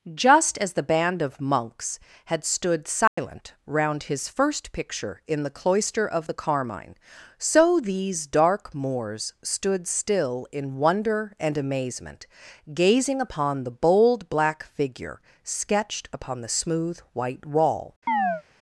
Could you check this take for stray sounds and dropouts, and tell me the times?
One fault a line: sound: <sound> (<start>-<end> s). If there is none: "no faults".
sound: dropout (3.1-3.2 s)
sound: chirp (18.1-18.4 s)